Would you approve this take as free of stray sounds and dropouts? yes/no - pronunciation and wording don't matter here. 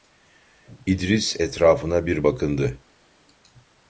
yes